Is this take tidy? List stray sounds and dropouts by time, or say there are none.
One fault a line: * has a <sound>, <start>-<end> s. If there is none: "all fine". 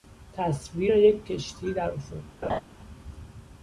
* has a laugh, 2.4-2.6 s